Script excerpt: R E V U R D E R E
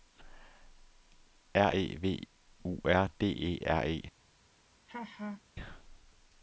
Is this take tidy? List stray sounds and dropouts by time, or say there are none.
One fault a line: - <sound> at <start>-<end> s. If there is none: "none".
- laugh at 4.9-5.4 s